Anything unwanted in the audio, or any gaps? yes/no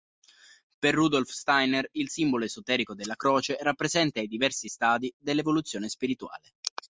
no